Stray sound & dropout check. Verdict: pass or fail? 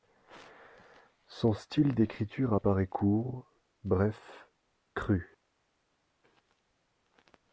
pass